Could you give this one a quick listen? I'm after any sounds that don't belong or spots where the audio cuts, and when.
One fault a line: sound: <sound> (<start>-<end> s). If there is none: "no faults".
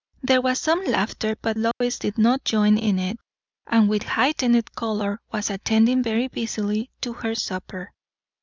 sound: dropout (1.7-1.8 s)